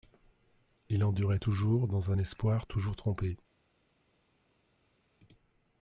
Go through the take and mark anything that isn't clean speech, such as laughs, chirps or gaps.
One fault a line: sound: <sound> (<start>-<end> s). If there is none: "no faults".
no faults